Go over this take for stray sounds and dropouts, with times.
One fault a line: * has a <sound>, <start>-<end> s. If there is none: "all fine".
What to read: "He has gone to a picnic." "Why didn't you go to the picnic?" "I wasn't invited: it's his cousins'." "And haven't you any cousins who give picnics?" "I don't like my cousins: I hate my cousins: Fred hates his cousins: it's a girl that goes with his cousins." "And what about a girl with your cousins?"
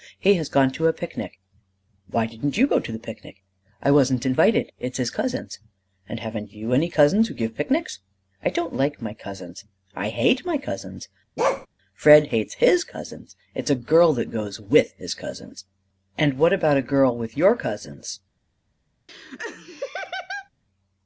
* has a bark, 11.4-11.7 s
* has a laugh, 19.1-20.5 s